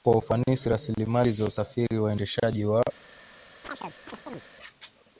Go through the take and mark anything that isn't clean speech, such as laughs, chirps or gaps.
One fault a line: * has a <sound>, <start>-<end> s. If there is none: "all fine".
* has a chirp, 3.6-4.4 s